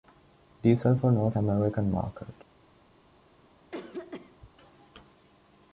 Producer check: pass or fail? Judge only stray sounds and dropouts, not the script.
fail